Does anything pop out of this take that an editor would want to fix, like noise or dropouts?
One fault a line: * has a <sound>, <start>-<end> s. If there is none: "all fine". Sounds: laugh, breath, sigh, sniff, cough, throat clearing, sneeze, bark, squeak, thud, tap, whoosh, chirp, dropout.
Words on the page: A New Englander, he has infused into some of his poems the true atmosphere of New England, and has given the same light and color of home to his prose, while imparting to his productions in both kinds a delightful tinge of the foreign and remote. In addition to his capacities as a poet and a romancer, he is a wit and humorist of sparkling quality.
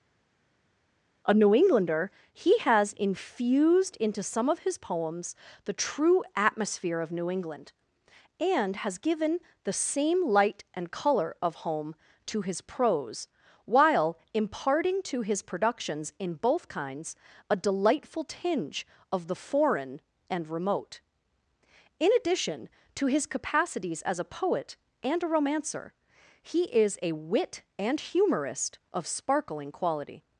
all fine